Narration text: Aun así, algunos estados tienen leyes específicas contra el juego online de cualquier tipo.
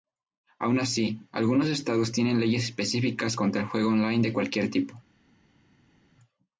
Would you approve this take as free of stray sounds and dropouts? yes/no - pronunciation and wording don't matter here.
yes